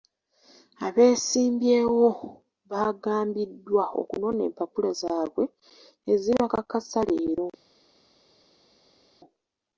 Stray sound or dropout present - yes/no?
no